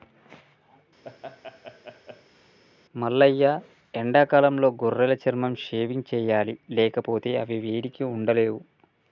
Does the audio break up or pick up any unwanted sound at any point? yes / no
yes